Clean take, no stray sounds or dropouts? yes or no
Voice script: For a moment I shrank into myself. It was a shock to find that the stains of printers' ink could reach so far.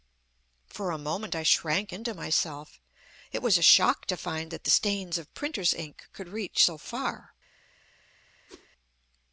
no